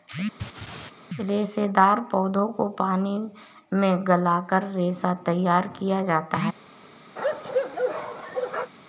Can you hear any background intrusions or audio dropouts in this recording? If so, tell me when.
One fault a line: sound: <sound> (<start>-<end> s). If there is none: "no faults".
sound: laugh (0.4-0.9 s)
sound: bark (7.2-8.7 s)